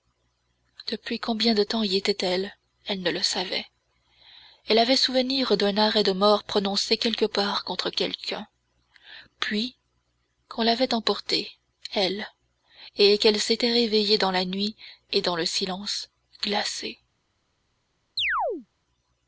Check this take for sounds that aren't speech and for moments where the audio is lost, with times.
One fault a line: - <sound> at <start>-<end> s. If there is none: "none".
- chirp at 18.2-18.7 s